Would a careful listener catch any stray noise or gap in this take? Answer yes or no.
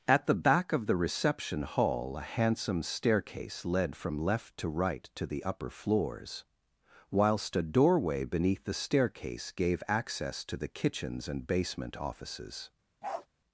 yes